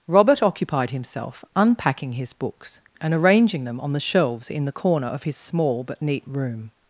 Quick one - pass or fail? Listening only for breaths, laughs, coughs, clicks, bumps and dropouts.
pass